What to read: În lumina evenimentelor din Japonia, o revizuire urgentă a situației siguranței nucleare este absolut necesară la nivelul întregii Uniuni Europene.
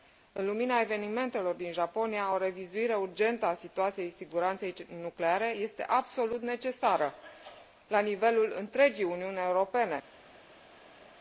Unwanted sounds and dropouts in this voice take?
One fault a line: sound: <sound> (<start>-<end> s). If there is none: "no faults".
no faults